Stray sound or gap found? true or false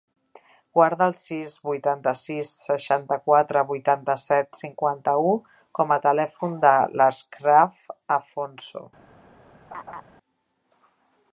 true